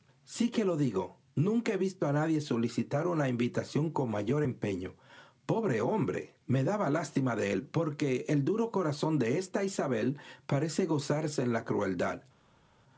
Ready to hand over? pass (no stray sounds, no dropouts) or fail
pass